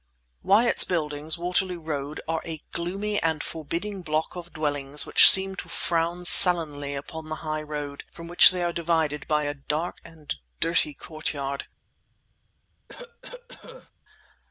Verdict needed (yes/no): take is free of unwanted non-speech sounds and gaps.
no